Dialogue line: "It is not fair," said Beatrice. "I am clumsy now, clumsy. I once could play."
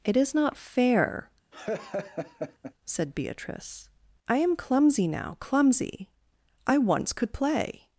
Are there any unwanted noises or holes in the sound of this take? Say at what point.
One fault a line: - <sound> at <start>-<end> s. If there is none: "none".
- laugh at 1.5-2.7 s